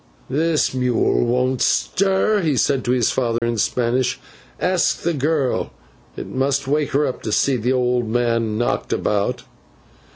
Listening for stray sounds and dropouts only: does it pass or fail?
fail